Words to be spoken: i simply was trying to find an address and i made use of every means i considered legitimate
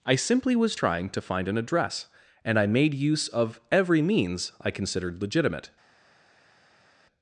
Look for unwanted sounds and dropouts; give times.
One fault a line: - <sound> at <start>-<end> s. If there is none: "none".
none